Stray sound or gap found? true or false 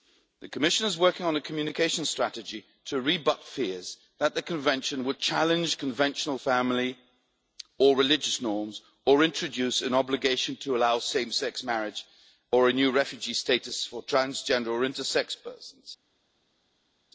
false